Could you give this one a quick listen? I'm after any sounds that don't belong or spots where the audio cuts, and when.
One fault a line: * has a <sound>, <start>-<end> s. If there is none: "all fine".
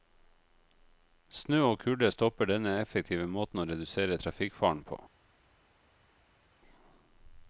all fine